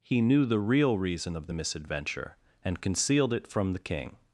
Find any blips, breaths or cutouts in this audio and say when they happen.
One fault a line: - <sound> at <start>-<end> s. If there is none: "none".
none